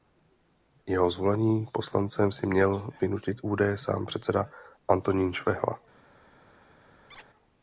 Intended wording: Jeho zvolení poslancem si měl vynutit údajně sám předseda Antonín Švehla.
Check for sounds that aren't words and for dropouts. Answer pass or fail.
fail